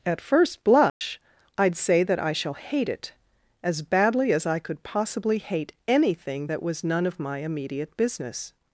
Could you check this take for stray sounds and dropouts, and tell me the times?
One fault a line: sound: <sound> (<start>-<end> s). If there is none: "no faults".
sound: dropout (0.9-1.0 s)